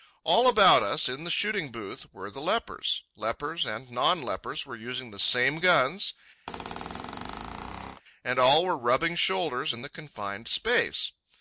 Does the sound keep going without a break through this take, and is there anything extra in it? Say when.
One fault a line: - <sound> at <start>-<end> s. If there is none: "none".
- squeak at 6.5-8.0 s